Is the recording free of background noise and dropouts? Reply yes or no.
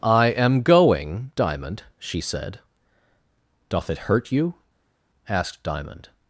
yes